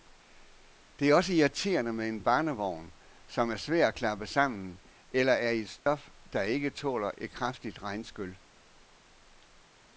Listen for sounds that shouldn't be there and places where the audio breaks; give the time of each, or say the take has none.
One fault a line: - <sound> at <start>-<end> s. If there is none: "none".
- dropout at 5.8-5.9 s